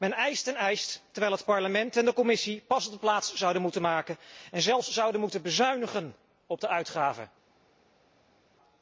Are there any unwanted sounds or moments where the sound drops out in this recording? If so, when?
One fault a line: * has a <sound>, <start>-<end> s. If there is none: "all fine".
all fine